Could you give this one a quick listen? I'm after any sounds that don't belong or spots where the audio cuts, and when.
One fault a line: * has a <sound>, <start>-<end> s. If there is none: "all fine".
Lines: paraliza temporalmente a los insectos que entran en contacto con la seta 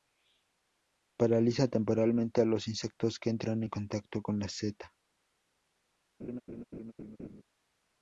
* has a laugh, 6.2-7.4 s